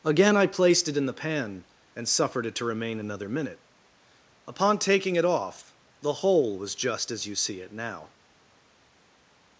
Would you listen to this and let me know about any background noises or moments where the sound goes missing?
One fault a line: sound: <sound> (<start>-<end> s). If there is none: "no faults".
no faults